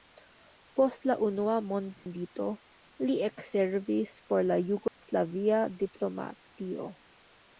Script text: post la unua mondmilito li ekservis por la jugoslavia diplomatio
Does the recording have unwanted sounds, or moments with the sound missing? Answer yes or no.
yes